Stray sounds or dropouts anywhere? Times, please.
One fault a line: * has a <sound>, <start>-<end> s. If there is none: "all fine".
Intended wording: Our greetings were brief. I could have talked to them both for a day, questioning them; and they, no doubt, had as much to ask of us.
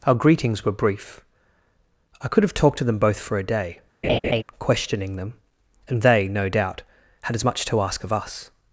* has a laugh, 4.0-4.4 s